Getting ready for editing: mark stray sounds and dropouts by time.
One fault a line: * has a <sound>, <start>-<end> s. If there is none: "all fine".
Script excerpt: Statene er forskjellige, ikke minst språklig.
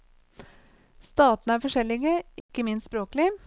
* has a dropout, 2.4-2.5 s